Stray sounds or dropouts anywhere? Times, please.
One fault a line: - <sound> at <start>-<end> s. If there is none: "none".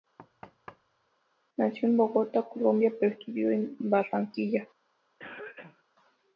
- thud at 0.2-1.1 s
- cough at 5.2-5.8 s